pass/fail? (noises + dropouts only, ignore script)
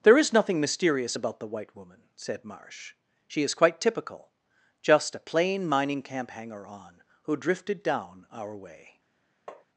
fail